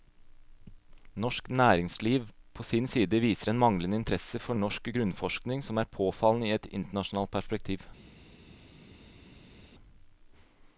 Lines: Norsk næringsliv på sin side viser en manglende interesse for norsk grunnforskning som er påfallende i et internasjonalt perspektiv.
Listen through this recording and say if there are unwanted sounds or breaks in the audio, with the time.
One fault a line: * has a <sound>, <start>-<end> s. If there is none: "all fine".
all fine